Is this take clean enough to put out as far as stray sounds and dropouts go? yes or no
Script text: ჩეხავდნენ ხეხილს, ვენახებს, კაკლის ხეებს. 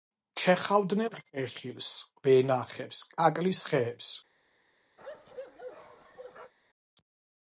no